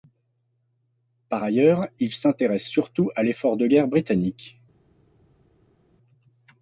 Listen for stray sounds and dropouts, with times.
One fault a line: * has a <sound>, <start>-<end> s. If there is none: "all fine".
all fine